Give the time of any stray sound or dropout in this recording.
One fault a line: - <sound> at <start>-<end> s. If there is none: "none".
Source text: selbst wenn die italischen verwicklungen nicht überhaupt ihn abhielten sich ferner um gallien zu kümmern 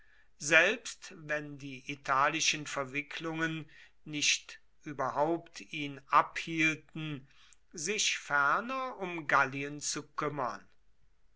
none